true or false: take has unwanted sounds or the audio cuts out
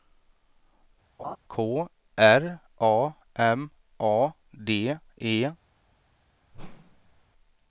true